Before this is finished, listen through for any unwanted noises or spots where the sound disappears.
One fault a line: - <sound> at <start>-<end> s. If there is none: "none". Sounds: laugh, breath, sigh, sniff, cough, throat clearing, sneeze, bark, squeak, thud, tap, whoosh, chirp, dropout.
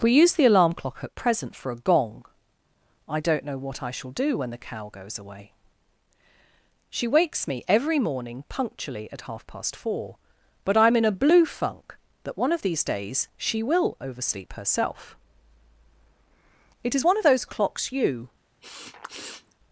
- sniff at 18.6-19.6 s